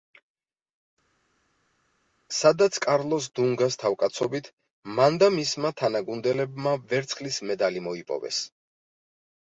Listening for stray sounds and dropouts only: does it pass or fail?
pass